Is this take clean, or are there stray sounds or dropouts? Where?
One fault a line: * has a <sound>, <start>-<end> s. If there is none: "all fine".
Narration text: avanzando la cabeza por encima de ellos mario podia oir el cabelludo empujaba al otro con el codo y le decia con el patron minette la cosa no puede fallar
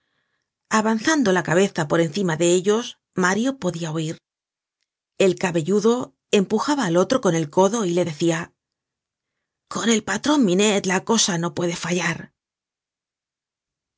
all fine